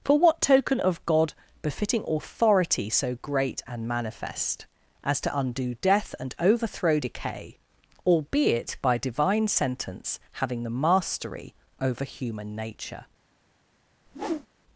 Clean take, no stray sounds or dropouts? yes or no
no